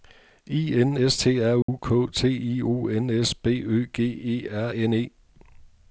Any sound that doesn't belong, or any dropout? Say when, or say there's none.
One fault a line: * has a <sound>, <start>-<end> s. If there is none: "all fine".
* has a dropout, 1.6-1.7 s